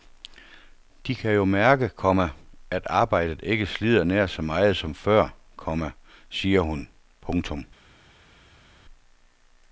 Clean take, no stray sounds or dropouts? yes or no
yes